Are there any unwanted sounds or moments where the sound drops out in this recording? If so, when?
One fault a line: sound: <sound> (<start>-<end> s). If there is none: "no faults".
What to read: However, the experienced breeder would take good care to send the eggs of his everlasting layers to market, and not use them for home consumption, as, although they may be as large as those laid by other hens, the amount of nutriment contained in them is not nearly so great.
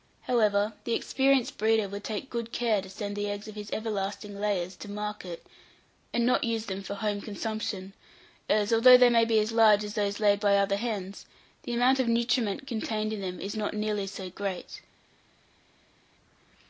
no faults